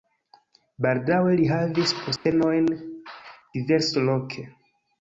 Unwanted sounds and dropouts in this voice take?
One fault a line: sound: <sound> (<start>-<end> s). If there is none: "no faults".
sound: dropout (2.2-2.3 s)